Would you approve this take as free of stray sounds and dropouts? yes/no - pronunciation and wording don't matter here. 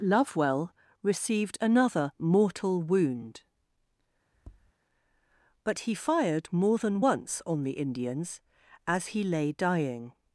no